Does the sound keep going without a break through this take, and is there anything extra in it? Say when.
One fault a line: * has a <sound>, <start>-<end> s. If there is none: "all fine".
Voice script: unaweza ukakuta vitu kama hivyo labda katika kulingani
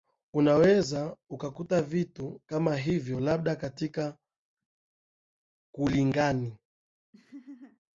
* has a laugh, 7.1-7.8 s